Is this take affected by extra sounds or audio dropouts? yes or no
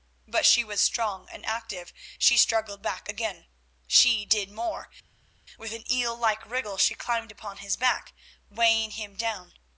no